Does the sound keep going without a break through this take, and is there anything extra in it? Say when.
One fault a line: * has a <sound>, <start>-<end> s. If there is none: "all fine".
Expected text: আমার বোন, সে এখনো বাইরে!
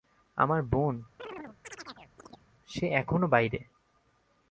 * has a chirp, 1.2-2.5 s